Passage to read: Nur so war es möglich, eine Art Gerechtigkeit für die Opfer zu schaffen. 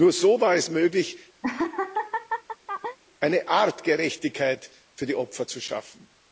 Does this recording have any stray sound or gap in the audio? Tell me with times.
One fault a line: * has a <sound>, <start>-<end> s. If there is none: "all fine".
* has a laugh, 1.4-3.0 s